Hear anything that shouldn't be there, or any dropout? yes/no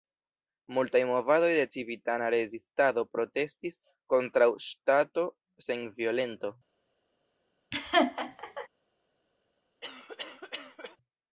yes